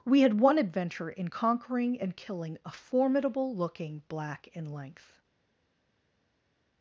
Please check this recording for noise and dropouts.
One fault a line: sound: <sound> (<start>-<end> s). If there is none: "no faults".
no faults